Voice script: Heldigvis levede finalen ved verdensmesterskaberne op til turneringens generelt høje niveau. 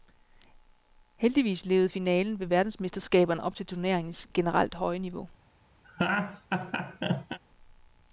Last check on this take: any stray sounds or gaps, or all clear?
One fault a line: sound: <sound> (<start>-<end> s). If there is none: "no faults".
sound: laugh (5.8-7.4 s)